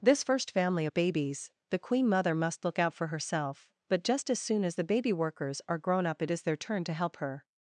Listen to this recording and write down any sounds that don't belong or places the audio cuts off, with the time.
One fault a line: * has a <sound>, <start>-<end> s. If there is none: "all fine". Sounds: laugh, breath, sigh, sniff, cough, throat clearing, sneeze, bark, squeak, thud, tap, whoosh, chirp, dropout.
all fine